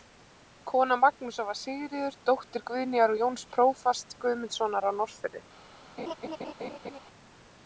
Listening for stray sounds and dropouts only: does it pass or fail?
fail